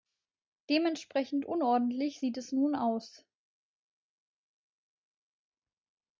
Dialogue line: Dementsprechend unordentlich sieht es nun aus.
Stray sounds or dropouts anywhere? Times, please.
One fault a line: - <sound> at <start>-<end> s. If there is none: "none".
none